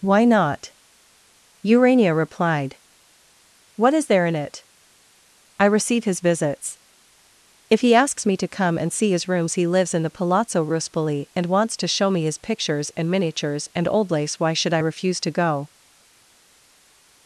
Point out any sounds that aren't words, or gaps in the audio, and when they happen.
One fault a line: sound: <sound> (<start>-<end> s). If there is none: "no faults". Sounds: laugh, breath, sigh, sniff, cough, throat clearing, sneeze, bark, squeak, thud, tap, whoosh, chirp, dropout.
no faults